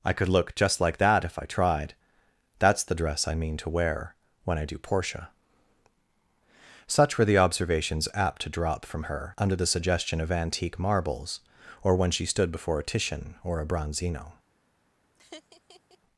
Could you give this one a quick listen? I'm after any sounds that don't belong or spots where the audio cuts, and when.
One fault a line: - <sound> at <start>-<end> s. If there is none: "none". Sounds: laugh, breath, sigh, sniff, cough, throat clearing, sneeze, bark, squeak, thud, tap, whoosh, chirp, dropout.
- laugh at 15.1-16.0 s